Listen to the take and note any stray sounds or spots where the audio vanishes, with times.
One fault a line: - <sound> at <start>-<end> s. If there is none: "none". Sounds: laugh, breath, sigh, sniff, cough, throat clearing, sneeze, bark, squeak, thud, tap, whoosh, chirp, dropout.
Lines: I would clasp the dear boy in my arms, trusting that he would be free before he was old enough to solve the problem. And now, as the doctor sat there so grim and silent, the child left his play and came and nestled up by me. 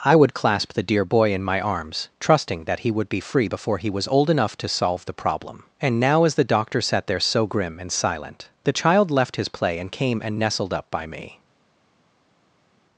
none